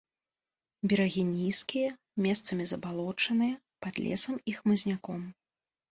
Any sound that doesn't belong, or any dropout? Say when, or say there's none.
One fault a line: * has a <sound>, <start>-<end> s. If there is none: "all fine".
all fine